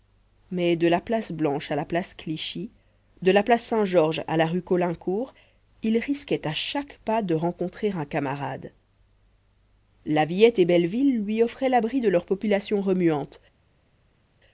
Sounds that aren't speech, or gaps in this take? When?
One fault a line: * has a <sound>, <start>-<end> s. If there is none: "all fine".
all fine